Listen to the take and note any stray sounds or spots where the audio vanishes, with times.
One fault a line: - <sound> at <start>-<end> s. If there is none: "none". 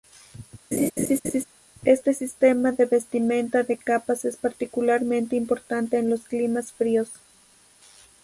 - laugh at 0.7-1.4 s